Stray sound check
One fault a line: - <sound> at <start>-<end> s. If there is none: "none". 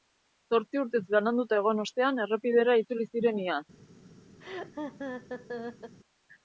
- laugh at 4.4-5.9 s